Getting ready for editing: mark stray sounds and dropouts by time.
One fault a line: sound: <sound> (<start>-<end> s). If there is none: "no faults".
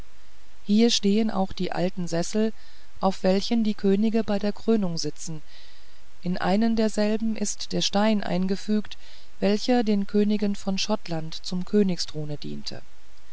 no faults